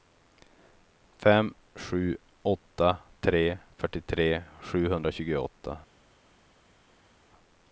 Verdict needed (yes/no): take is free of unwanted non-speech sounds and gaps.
yes